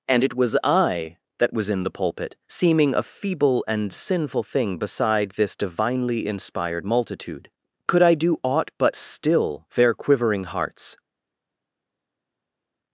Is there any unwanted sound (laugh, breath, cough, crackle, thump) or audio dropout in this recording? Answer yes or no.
no